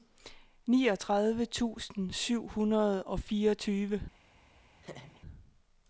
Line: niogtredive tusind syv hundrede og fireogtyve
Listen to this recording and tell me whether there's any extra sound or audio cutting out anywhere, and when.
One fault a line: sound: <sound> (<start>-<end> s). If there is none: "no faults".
sound: laugh (4.8-5.2 s)